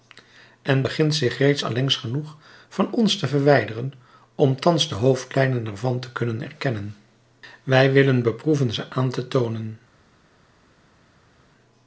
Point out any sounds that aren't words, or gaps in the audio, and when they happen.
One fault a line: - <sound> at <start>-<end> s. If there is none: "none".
none